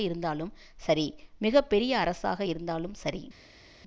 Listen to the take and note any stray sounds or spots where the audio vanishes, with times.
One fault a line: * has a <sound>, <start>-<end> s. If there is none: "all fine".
all fine